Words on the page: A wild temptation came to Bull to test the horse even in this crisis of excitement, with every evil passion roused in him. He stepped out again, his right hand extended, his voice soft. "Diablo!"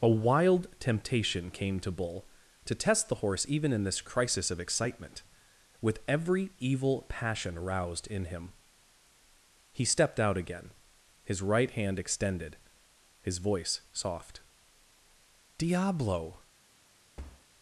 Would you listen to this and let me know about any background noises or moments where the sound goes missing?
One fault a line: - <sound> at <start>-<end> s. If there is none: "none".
- thud at 17.2-17.5 s